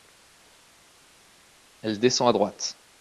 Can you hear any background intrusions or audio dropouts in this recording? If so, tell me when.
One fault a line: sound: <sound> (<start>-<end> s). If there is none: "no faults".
no faults